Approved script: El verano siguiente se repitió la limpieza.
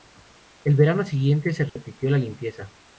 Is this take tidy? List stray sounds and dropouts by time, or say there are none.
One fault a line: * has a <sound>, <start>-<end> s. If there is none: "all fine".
* has a dropout, 1.7-1.8 s